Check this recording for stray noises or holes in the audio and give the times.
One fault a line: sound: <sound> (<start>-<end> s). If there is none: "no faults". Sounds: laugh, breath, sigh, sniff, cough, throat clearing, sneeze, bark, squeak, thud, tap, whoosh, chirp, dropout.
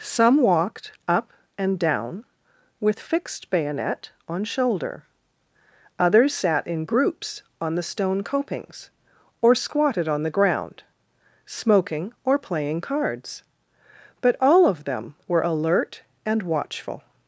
no faults